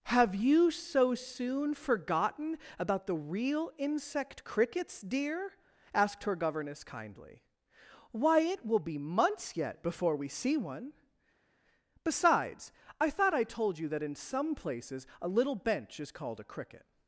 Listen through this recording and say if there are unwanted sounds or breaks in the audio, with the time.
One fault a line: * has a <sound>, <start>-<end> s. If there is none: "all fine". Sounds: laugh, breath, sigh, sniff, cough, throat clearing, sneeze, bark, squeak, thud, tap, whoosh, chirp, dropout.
all fine